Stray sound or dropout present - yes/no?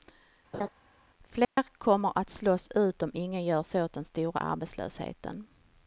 yes